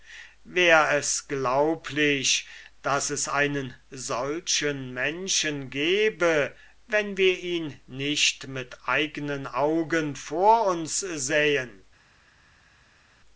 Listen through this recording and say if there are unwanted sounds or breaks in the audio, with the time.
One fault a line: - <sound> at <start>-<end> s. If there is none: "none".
none